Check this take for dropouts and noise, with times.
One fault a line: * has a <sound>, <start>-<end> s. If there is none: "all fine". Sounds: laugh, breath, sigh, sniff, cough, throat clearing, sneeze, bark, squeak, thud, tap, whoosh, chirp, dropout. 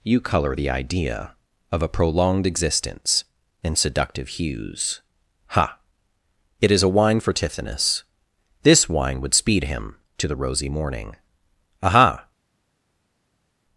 all fine